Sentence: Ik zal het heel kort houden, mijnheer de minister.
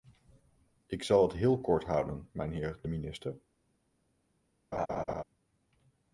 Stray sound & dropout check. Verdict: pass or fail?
fail